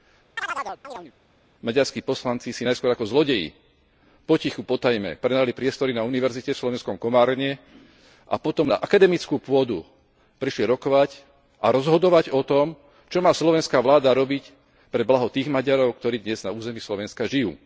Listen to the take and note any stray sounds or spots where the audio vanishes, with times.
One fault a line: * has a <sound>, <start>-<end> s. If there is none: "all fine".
* has a chirp, 0.4-1.1 s